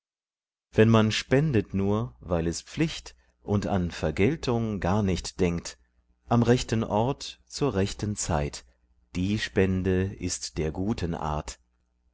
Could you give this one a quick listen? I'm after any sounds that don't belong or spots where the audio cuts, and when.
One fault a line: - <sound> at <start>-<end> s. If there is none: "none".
none